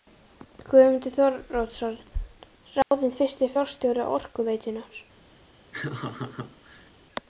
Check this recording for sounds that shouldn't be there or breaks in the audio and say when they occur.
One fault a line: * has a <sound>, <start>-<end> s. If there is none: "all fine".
* has a dropout, 2.8-2.9 s
* has a laugh, 5.7-6.9 s